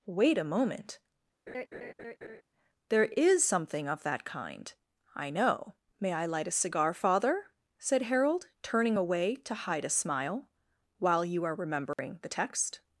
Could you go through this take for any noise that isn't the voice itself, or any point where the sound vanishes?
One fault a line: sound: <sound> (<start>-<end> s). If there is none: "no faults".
sound: laugh (1.5-2.4 s)
sound: dropout (11.9-12.0 s)